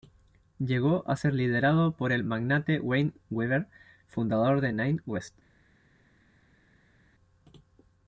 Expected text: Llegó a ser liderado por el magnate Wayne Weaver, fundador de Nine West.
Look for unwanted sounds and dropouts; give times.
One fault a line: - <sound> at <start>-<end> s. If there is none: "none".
none